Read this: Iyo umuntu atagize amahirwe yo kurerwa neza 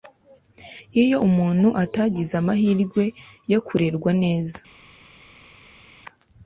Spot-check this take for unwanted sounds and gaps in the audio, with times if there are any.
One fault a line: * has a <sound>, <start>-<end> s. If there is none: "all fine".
all fine